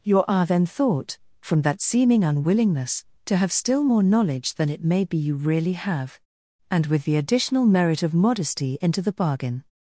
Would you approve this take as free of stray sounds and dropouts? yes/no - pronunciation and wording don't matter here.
yes